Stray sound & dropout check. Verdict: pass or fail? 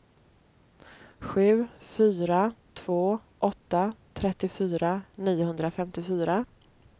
pass